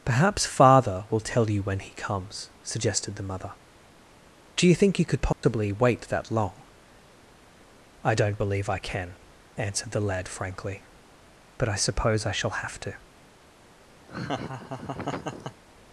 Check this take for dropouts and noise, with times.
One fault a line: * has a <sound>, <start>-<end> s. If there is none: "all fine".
* has a dropout, 5.3-5.4 s
* has a laugh, 14.1-15.6 s